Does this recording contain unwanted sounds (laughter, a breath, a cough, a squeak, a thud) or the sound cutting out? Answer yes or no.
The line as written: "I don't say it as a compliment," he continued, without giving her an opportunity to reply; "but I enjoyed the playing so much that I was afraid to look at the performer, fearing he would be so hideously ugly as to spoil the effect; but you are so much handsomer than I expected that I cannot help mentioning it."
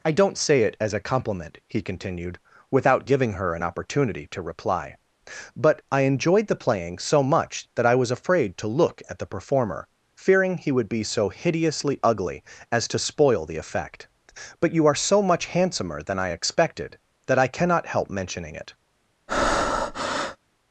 yes